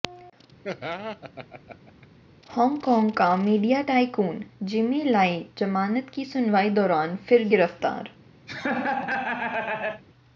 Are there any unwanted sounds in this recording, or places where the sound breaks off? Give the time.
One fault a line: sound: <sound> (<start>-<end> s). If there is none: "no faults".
sound: laugh (0.6-2.1 s)
sound: laugh (8.5-10.0 s)